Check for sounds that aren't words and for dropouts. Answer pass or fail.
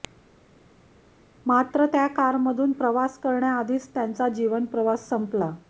pass